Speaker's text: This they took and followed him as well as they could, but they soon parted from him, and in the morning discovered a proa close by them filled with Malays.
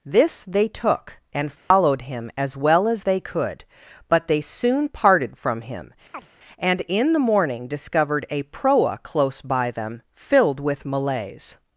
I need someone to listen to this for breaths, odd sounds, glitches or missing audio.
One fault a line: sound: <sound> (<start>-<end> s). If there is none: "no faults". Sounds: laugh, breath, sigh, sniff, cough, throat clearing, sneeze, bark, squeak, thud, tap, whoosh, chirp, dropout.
sound: dropout (1.6-1.7 s)
sound: chirp (6.1-6.3 s)